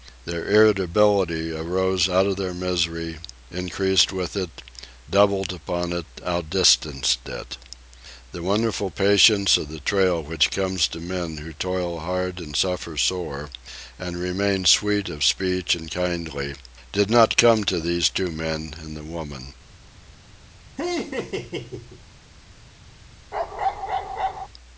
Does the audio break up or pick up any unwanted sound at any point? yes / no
yes